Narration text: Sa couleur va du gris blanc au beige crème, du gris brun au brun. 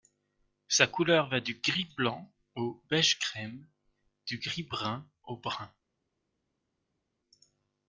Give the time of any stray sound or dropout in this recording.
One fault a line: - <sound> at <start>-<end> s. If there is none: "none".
none